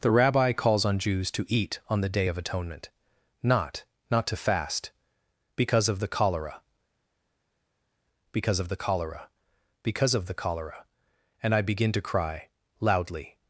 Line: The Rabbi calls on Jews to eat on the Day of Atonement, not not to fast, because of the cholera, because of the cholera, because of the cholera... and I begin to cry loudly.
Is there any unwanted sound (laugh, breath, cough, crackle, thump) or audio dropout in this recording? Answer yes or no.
no